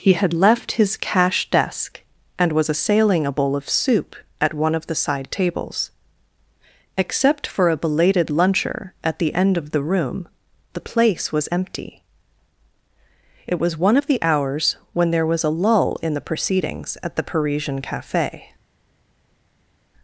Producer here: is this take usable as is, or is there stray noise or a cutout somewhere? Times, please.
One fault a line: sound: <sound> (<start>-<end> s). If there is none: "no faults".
no faults